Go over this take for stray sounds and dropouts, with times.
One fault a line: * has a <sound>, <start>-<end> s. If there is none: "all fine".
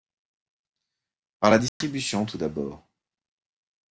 * has a dropout, 1.7-1.8 s